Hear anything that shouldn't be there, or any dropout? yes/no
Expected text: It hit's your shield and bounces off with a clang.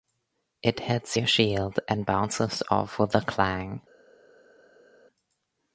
no